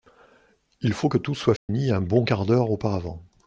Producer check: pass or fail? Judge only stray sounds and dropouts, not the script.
fail